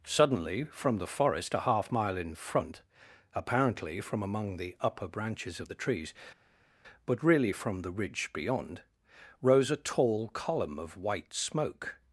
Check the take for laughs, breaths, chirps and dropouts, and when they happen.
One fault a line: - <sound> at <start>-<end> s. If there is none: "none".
none